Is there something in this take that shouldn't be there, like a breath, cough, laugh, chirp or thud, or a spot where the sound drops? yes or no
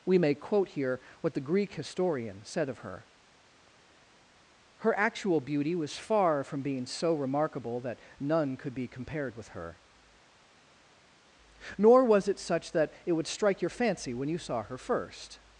no